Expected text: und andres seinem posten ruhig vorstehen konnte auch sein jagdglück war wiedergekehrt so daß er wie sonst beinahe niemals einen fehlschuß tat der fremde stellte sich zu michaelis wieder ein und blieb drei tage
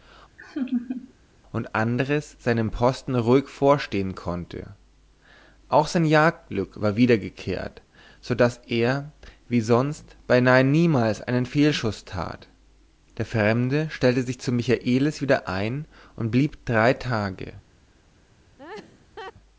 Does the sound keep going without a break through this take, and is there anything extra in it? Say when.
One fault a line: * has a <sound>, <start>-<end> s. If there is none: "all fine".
* has a laugh, 0.4-1.1 s
* has a laugh, 18.6-19.3 s